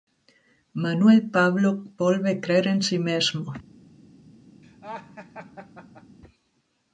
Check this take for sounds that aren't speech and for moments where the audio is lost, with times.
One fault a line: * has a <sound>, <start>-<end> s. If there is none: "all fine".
* has a laugh, 4.6-6.2 s